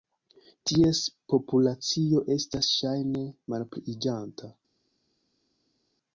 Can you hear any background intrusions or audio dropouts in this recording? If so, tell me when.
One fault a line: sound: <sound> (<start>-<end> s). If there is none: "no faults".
no faults